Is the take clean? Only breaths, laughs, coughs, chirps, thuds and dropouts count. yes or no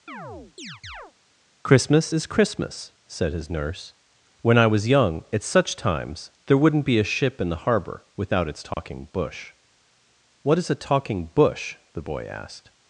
no